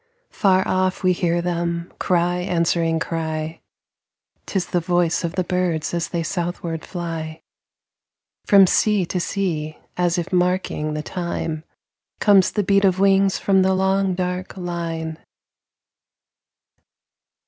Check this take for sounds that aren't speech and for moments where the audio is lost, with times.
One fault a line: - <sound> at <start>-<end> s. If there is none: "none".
none